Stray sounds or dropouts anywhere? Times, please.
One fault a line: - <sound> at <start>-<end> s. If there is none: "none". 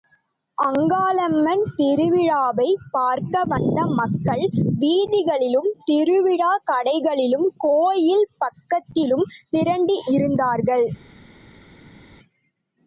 none